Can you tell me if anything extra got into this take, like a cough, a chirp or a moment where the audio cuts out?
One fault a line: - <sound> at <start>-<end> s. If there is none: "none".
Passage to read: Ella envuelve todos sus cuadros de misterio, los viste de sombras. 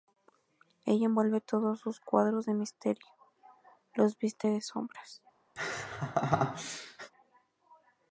- laugh at 5.6-7.1 s